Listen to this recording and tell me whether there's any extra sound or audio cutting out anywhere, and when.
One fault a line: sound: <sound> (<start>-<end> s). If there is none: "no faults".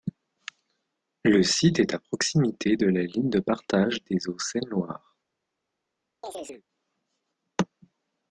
sound: chirp (6.2-6.6 s)